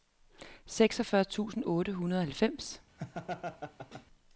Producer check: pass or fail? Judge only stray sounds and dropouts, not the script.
fail